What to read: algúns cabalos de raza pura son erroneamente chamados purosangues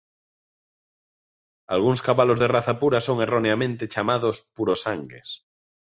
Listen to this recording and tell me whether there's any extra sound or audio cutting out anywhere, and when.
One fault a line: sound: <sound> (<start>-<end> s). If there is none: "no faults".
no faults